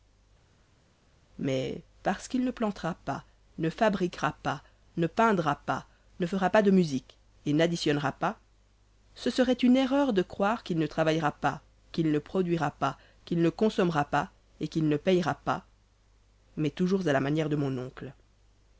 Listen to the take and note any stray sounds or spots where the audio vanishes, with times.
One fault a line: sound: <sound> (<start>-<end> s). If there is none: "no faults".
no faults